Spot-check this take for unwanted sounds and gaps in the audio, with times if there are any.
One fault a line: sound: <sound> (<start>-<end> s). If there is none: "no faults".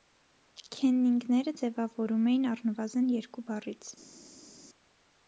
no faults